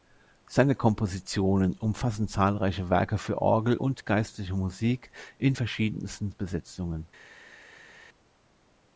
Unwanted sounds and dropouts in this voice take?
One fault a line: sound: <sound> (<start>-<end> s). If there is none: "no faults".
no faults